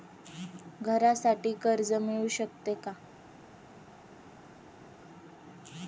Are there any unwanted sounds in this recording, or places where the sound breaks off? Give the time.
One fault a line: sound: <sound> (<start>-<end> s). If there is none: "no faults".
no faults